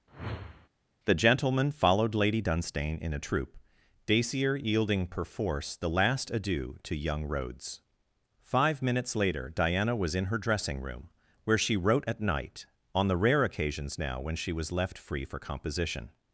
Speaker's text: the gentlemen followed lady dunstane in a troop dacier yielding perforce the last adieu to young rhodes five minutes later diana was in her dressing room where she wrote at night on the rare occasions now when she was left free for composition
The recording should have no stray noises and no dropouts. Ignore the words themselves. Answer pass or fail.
fail